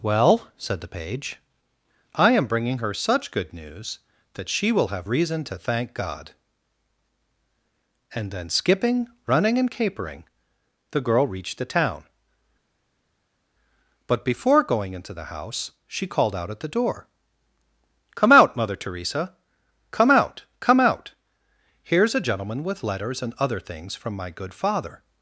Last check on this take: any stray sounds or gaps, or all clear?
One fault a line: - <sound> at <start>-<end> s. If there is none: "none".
none